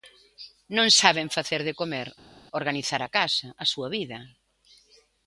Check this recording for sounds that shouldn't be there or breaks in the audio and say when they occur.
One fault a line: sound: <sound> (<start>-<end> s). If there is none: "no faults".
no faults